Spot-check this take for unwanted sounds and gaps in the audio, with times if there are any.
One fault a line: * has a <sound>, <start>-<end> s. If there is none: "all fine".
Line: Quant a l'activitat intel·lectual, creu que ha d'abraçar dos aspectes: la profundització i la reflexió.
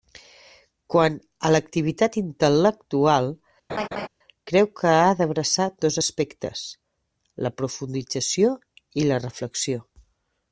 * has a laugh, 3.7-4.1 s